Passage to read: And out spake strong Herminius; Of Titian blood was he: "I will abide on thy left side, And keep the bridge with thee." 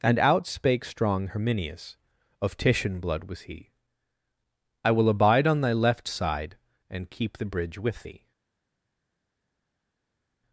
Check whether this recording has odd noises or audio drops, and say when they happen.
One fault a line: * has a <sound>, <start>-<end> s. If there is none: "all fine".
all fine